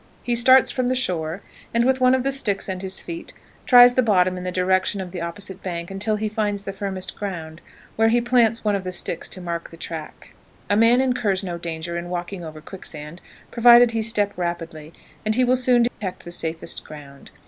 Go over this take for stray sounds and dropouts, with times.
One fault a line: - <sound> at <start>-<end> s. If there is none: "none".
- dropout at 15.9-16.0 s